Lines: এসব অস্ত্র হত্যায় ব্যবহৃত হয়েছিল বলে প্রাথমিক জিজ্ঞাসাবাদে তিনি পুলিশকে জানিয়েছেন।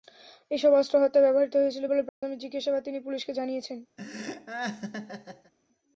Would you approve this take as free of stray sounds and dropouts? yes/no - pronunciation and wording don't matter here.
no